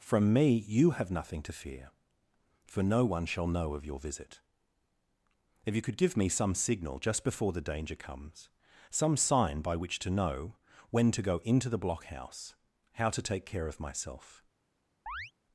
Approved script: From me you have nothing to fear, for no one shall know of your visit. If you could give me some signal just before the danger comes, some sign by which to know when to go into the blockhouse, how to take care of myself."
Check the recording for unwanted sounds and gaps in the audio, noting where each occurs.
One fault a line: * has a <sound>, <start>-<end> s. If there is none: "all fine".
* has a chirp, 15.1-15.3 s